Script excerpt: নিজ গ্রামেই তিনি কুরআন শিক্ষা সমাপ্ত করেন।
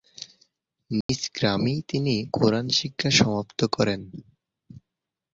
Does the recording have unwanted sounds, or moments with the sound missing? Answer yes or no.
yes